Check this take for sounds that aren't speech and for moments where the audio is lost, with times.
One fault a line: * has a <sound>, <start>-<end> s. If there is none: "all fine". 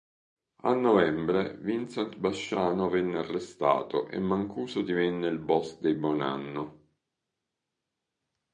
all fine